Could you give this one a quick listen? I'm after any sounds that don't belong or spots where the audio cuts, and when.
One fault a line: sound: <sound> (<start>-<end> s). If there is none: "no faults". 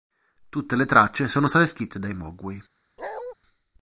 sound: bark (3.0-3.3 s)